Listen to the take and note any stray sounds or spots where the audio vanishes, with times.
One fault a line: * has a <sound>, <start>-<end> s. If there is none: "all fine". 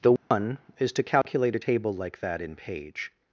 * has a dropout, 0.2-0.3 s
* has a dropout, 1.2-1.2 s